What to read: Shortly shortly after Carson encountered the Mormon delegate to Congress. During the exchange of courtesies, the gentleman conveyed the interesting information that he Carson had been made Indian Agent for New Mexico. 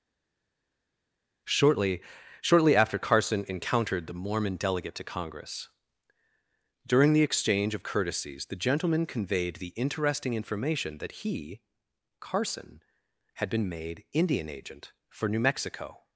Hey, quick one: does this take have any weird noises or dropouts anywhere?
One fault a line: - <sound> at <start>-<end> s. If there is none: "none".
none